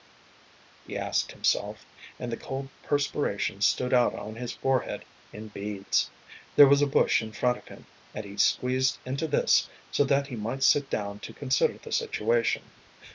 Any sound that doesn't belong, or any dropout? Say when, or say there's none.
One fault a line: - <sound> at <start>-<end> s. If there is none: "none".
none